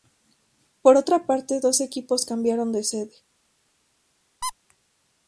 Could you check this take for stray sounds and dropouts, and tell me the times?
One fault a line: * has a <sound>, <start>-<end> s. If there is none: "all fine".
* has a squeak, 4.4-4.5 s